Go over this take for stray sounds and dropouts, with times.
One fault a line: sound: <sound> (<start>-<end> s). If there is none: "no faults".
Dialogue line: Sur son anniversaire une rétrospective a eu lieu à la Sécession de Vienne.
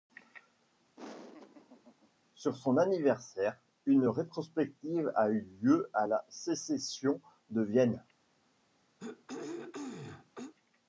sound: laugh (1.0-2.1 s)
sound: throat clearing (9.0-10.5 s)